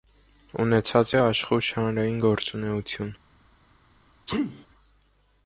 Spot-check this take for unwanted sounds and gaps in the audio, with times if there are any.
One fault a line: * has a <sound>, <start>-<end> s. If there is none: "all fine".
* has a sneeze, 4.3-4.7 s